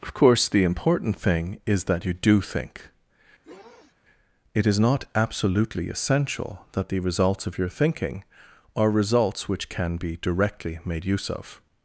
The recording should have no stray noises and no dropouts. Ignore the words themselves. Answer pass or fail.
fail